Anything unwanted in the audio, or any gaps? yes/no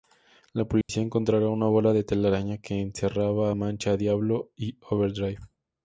yes